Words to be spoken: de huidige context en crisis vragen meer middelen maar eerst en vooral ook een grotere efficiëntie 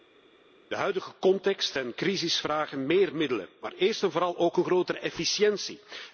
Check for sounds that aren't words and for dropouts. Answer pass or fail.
pass